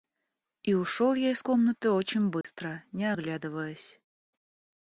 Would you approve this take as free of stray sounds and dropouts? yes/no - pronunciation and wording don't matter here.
no